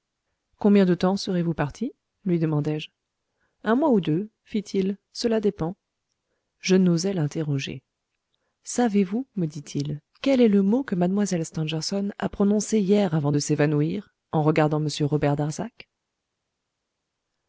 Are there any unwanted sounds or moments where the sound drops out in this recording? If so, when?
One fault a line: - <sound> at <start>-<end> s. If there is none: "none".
none